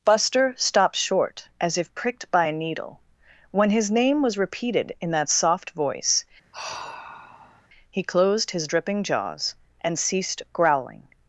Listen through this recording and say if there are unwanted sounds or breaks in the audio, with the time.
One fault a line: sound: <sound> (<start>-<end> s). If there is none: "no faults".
sound: sigh (6.5-7.7 s)